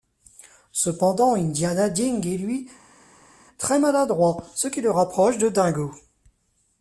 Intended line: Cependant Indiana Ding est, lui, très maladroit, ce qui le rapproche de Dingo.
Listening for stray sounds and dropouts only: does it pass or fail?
pass